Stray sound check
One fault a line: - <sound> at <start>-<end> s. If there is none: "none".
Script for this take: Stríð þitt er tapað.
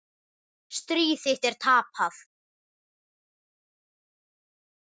none